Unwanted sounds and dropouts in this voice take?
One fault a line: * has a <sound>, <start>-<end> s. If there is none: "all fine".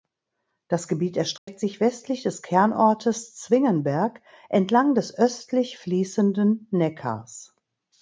* has a dropout, 1.4-1.5 s